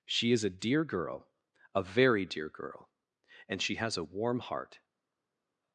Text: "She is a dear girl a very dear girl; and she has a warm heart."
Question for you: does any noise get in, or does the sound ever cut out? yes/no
no